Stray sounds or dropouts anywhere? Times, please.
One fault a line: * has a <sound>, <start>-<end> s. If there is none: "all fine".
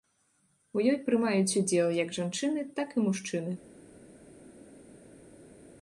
all fine